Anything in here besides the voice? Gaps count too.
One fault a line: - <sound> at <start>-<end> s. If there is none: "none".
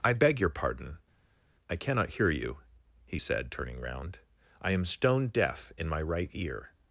none